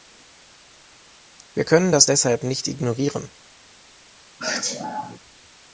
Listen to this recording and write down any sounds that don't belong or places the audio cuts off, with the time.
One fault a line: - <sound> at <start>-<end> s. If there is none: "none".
- sneeze at 4.4-5.2 s